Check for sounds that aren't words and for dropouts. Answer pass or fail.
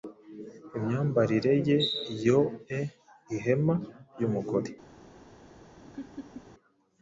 fail